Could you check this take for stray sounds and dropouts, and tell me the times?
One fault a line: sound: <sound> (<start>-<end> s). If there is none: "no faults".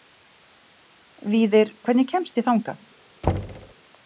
sound: thud (3.2-3.7 s)